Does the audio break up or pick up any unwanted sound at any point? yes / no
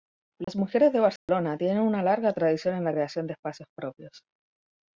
yes